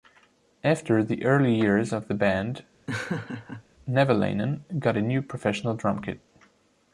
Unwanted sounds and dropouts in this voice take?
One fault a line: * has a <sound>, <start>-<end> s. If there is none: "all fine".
* has a laugh, 2.9-3.6 s